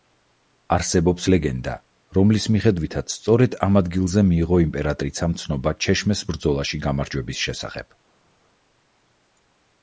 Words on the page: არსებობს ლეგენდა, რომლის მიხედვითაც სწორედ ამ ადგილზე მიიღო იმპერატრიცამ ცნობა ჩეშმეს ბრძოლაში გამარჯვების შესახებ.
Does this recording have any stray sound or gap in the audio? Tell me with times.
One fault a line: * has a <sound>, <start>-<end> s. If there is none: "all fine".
all fine